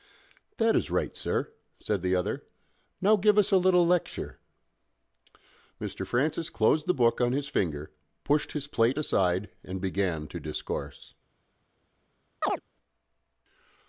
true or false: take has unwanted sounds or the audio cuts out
true